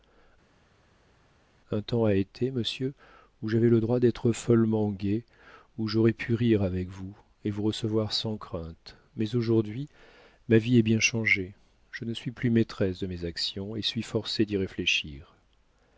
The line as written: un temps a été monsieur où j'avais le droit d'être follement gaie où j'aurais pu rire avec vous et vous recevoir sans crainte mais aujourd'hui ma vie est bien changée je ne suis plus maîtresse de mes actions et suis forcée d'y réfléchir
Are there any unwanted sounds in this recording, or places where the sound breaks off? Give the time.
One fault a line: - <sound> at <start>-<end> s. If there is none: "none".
none